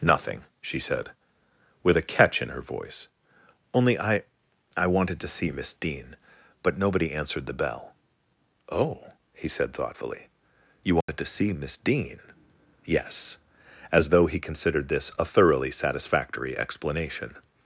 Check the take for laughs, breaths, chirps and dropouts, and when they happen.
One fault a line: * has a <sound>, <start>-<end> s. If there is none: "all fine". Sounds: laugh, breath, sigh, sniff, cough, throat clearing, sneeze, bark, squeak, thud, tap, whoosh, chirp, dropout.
* has a dropout, 11.0-11.1 s